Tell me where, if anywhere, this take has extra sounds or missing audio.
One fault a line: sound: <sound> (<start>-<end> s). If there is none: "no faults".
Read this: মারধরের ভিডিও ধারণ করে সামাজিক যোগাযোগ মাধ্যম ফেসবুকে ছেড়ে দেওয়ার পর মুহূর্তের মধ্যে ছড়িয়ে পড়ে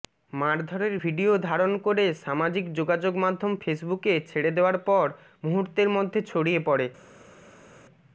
no faults